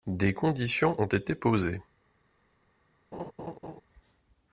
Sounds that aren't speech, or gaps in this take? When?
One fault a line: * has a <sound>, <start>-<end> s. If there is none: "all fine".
* has a laugh, 3.1-3.8 s